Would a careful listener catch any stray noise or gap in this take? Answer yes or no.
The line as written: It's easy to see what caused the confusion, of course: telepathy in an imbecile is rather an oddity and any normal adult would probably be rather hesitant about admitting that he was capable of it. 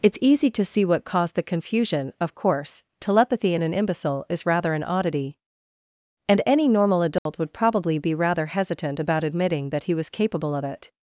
yes